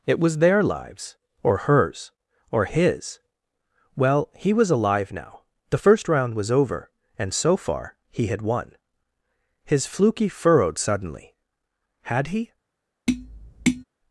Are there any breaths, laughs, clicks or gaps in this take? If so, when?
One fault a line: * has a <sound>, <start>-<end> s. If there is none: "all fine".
* has a tap, 13.1-13.8 s